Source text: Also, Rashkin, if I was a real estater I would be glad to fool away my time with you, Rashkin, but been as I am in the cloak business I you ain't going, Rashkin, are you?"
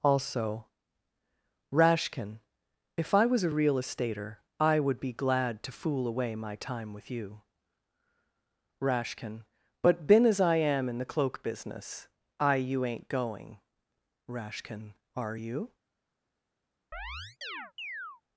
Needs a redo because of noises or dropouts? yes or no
yes